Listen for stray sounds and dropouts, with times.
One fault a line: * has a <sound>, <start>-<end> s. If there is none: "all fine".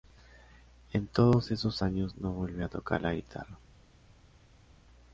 all fine